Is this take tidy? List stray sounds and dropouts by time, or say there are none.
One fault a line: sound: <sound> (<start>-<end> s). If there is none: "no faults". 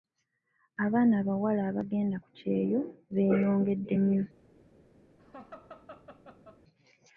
sound: laugh (5.2-6.6 s)